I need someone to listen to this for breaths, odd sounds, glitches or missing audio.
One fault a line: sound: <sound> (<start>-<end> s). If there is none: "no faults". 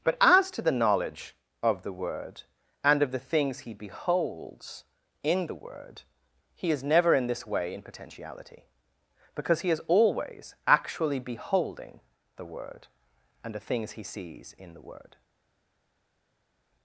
no faults